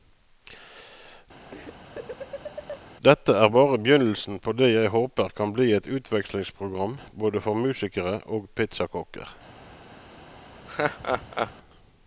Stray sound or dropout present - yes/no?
yes